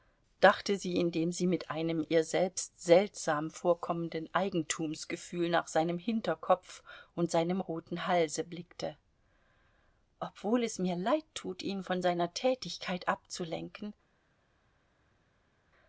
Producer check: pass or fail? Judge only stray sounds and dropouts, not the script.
pass